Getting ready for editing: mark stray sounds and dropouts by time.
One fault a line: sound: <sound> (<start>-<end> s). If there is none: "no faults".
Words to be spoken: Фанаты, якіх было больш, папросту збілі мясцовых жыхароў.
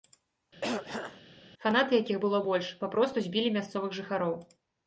sound: throat clearing (0.6-1.2 s)